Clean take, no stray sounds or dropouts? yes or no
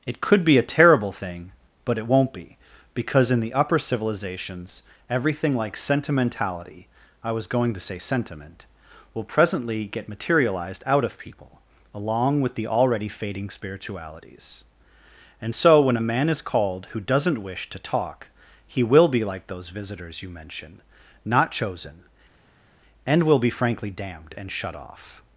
yes